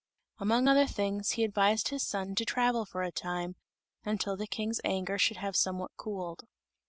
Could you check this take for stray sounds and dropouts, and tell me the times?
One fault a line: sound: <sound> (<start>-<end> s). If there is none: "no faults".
no faults